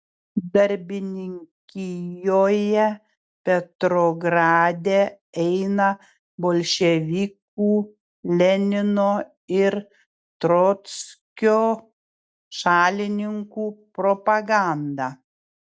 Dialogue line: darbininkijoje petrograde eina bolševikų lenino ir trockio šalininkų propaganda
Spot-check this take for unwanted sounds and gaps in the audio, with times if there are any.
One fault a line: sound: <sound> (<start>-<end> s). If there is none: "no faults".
no faults